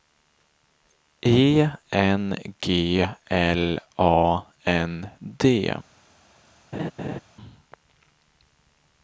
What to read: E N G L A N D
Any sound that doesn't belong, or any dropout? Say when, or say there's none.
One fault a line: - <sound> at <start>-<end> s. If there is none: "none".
- laugh at 6.7-7.2 s